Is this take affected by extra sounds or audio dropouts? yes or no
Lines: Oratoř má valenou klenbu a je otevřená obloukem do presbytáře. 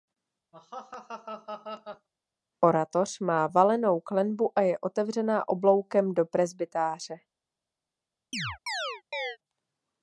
yes